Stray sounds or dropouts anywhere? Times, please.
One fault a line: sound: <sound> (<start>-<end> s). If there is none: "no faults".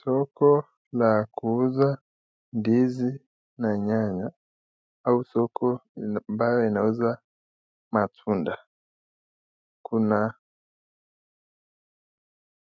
no faults